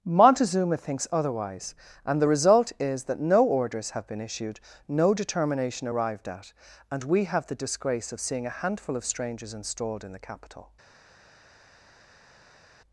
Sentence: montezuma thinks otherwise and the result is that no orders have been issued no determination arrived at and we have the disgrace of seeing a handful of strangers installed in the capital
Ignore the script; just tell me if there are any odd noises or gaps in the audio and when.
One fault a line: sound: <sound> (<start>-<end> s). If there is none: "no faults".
no faults